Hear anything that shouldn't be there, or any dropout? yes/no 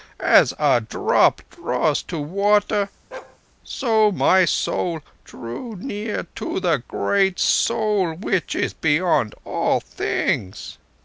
yes